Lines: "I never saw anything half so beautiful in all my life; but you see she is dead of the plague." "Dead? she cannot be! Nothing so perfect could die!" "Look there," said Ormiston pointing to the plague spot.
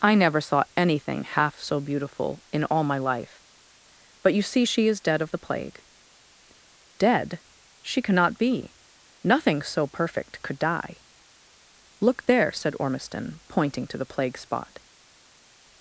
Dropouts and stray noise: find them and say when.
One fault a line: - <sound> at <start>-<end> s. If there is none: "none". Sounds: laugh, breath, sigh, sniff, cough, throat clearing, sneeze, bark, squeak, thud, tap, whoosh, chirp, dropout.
none